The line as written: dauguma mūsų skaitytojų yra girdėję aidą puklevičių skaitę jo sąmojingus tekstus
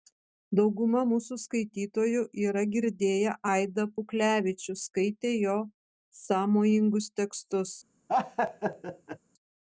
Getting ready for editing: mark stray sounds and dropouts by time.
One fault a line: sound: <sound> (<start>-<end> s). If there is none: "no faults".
sound: laugh (8.1-9.2 s)